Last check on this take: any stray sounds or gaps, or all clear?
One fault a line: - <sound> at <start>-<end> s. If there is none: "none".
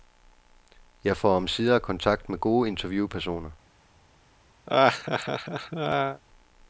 - laugh at 4.7-6.2 s